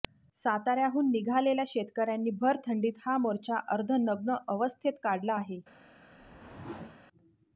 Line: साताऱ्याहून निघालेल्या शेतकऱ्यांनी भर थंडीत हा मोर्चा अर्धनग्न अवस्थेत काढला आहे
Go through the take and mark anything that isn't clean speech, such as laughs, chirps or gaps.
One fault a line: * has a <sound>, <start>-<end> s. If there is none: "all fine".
* has a whoosh, 6.1-7.1 s